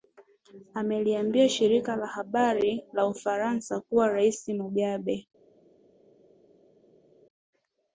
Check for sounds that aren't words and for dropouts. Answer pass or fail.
pass